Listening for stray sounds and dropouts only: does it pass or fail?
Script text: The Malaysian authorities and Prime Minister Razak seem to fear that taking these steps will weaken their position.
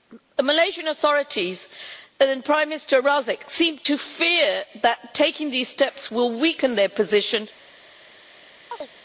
fail